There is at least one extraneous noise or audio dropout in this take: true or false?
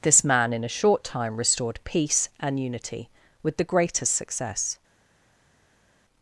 false